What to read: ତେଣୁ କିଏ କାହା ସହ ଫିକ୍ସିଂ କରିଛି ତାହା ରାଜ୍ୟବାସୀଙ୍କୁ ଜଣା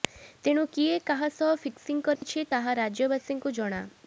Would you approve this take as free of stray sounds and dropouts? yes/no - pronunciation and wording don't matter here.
no